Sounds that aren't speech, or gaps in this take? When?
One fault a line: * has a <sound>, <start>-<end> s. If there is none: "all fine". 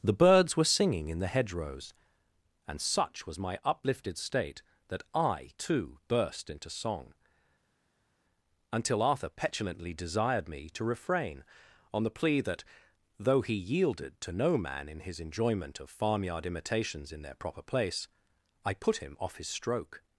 all fine